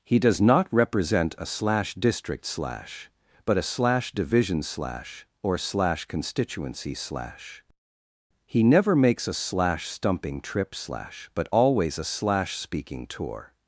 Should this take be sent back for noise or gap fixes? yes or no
no